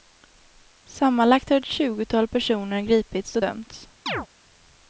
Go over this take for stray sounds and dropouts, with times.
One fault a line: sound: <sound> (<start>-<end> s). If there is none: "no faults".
sound: chirp (4.1-4.3 s)